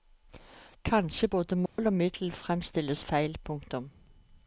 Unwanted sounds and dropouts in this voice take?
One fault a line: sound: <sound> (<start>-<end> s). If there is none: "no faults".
sound: dropout (1.7-1.8 s)